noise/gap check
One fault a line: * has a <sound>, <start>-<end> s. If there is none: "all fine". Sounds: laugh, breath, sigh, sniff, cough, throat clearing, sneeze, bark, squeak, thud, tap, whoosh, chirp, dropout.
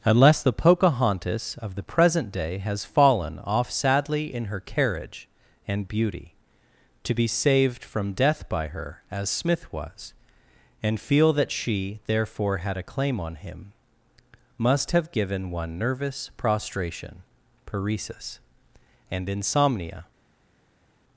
all fine